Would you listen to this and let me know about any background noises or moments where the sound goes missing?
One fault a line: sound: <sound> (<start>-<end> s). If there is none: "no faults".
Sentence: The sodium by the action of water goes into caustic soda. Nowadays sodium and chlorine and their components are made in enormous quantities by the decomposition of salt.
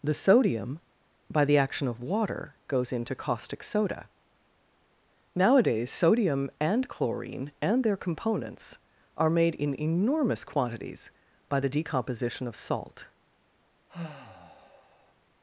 sound: sigh (13.9-15.1 s)